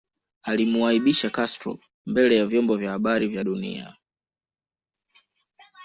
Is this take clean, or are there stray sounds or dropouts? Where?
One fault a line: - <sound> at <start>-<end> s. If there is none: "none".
none